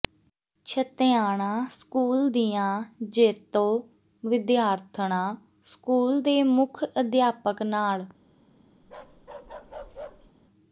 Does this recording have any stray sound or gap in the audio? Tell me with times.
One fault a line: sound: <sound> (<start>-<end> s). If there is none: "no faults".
sound: bark (8.8-10.3 s)